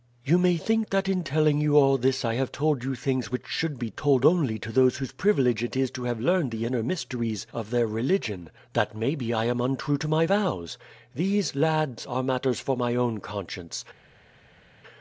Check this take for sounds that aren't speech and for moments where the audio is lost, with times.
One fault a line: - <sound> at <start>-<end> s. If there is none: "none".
none